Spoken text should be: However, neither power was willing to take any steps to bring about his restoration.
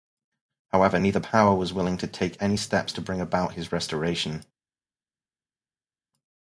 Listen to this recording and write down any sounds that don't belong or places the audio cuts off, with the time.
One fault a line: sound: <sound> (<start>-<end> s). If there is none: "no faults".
no faults